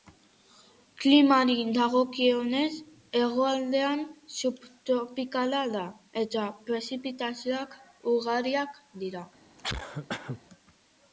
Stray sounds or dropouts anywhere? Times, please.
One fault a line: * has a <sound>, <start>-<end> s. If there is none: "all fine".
* has a cough, 9.6-10.4 s